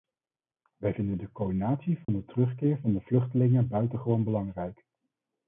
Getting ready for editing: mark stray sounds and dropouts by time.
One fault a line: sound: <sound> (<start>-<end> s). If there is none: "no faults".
sound: dropout (2.0-2.1 s)